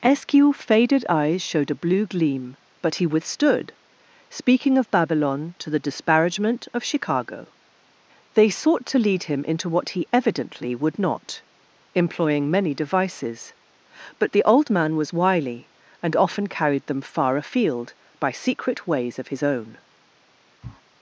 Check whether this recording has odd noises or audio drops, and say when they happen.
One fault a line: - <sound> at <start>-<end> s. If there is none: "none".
- sniff at 20.6-20.8 s